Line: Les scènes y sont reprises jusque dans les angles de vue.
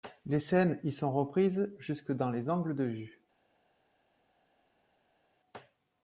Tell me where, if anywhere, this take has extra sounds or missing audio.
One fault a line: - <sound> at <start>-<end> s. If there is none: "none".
none